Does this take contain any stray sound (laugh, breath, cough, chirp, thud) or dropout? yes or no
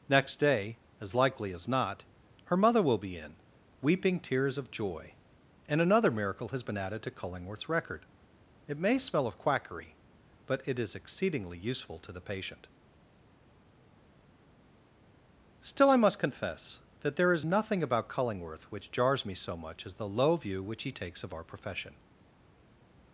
no